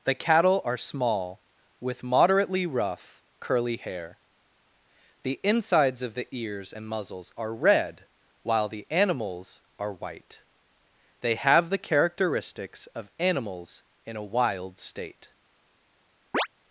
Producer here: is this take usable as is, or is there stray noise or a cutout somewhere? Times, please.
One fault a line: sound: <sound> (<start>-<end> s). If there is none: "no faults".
sound: chirp (16.3-16.5 s)